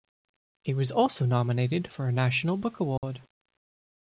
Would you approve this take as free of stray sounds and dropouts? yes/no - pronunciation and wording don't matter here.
no